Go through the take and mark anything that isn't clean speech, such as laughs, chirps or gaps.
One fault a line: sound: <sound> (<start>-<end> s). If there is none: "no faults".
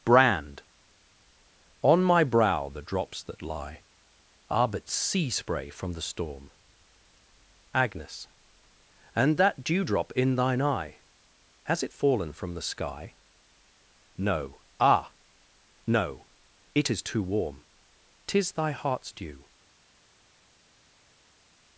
no faults